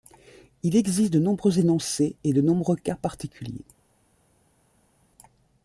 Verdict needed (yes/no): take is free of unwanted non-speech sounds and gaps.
yes